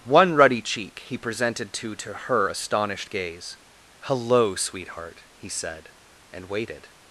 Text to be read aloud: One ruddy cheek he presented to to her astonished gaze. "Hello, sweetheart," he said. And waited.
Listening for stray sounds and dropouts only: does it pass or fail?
pass